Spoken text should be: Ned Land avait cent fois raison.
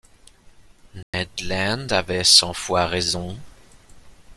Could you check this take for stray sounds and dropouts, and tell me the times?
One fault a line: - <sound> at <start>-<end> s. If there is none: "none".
- dropout at 1.0-1.1 s